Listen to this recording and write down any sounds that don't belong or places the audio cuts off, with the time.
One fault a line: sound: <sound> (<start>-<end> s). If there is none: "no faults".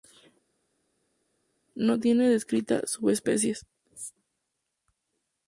no faults